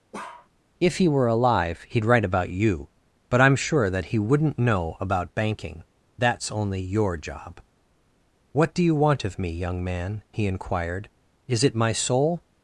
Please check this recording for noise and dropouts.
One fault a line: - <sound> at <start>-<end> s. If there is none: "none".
- bark at 0.1-0.5 s